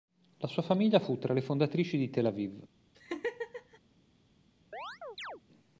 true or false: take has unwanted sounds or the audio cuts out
true